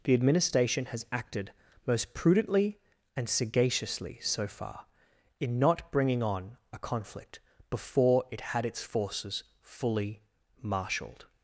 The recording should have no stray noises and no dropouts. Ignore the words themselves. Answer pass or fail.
pass